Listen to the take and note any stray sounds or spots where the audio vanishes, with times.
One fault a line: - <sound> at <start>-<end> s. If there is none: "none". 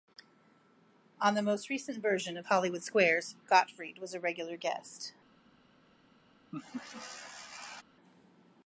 - laugh at 6.5-7.8 s